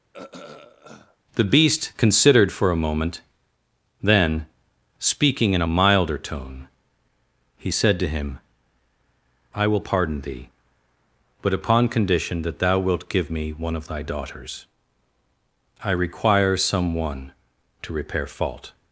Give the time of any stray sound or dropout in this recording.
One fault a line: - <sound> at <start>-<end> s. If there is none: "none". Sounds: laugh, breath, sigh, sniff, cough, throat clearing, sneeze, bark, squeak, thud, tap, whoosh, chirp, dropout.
- throat clearing at 0.1-1.2 s